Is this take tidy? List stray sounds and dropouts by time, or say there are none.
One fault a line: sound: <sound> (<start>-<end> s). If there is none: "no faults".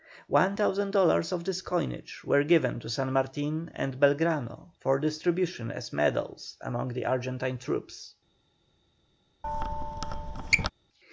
sound: squeak (9.4-10.7 s)